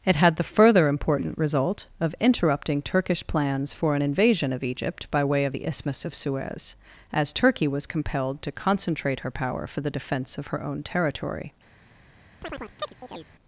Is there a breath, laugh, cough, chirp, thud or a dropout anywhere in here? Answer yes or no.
yes